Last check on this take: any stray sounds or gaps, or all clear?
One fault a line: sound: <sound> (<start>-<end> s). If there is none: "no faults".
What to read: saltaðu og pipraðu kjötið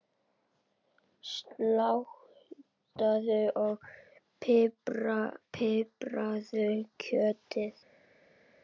no faults